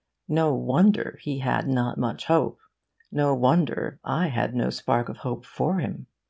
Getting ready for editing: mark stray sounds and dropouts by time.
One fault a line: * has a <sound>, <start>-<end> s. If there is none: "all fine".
all fine